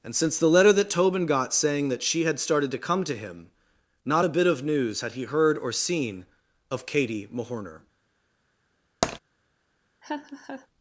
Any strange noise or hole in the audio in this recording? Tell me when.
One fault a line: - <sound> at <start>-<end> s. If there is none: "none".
- tap at 9.0-9.2 s
- laugh at 10.0-10.7 s